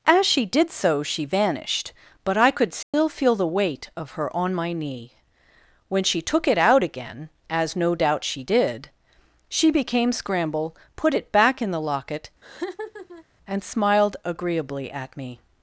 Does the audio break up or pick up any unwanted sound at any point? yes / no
yes